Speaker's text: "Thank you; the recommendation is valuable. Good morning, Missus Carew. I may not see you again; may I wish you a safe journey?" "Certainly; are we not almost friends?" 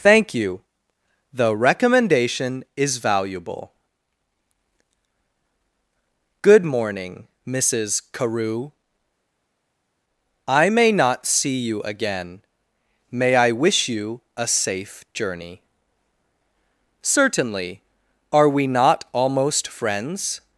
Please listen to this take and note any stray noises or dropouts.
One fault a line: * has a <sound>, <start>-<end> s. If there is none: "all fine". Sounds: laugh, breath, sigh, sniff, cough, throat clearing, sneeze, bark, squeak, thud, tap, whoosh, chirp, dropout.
all fine